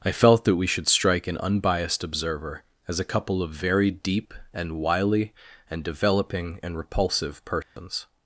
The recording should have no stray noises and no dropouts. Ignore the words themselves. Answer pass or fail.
fail